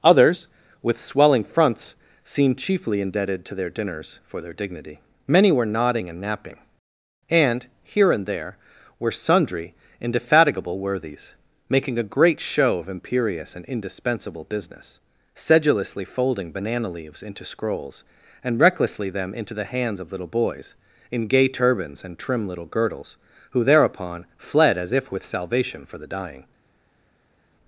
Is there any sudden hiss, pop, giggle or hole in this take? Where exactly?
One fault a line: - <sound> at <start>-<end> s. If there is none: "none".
none